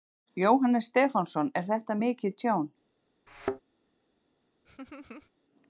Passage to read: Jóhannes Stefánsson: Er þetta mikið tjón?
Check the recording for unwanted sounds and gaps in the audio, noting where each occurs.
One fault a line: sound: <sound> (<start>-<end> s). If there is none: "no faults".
sound: thud (3.3-3.6 s)
sound: laugh (4.6-5.3 s)